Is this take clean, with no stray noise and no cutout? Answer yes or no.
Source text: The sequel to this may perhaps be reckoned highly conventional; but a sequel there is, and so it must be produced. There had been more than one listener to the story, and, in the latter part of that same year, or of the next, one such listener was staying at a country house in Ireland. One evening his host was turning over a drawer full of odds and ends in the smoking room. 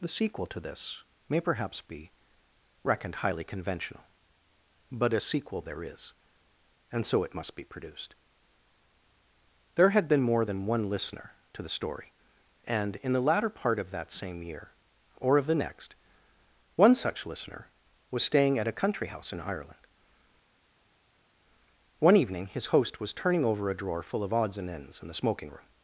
yes